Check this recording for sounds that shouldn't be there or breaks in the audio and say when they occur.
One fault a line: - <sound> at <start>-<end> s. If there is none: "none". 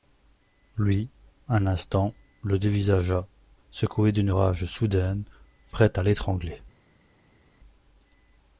none